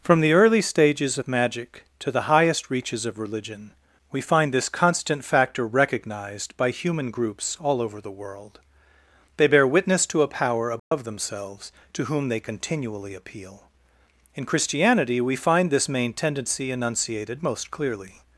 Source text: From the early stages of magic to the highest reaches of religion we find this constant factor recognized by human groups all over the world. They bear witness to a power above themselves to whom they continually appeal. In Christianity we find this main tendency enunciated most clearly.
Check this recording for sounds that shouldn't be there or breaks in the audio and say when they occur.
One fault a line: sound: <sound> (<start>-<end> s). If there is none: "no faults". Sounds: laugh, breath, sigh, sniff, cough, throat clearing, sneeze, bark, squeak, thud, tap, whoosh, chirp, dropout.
sound: dropout (10.8-10.9 s)